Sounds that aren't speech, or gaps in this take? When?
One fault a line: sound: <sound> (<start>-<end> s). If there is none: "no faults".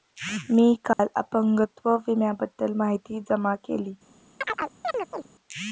sound: dropout (0.9-1.0 s)
sound: chirp (4.4-5.3 s)